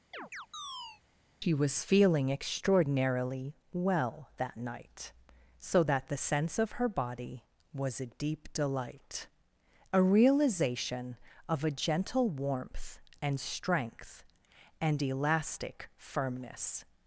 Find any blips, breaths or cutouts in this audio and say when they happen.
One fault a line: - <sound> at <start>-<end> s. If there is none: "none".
- chirp at 0.1-1.0 s